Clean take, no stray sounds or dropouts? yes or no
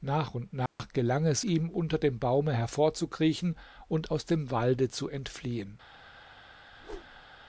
no